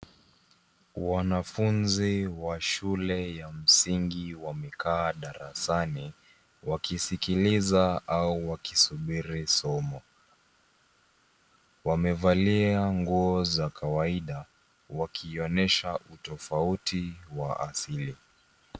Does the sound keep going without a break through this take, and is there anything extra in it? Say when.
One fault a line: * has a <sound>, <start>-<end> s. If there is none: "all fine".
all fine